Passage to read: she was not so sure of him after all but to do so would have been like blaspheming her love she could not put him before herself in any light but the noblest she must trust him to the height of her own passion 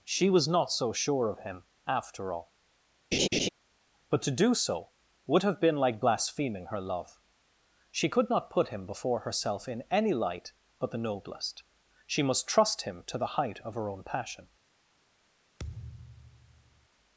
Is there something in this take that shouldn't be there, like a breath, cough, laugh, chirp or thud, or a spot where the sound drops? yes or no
yes